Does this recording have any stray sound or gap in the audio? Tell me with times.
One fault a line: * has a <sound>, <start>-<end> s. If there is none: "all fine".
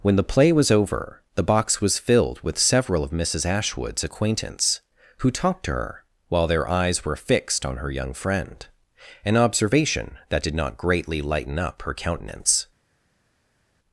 all fine